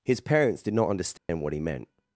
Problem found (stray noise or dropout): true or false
true